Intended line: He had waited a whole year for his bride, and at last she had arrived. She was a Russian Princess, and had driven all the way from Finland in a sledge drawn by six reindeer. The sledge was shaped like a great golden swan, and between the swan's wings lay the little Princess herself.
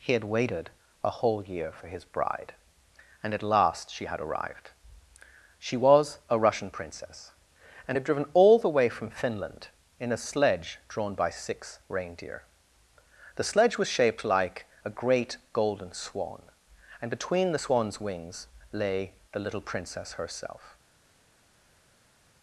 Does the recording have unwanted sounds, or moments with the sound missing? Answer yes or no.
no